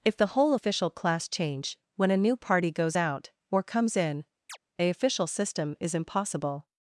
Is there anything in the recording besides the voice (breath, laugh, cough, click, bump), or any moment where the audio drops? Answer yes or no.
yes